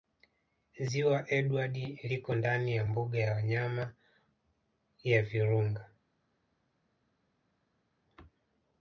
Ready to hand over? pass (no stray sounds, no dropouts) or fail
pass